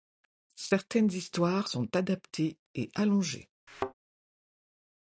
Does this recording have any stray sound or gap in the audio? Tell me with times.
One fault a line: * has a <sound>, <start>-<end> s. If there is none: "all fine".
* has a thud, 3.7-3.9 s